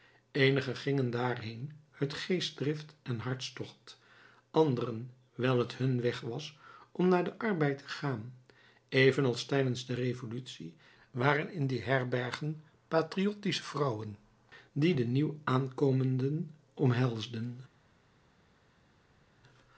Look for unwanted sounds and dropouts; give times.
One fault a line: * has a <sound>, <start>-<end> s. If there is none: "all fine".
all fine